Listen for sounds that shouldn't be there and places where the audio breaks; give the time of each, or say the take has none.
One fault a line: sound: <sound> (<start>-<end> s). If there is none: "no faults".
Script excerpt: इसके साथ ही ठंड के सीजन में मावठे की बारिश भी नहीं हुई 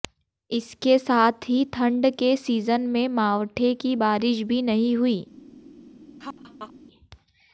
sound: laugh (6.2-6.7 s)